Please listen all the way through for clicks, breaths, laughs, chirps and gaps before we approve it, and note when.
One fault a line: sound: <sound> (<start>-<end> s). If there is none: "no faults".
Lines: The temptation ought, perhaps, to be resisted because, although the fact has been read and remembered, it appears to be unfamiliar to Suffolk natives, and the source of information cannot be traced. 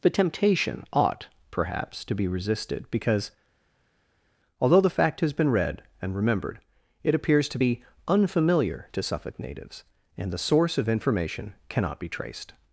no faults